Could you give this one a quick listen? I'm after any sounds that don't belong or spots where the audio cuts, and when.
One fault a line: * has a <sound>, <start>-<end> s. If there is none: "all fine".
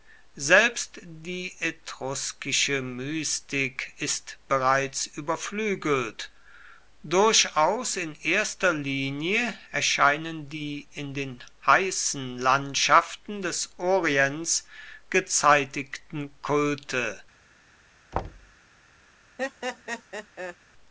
* has a thud, 18.1-18.6 s
* has a laugh, 19.4-20.6 s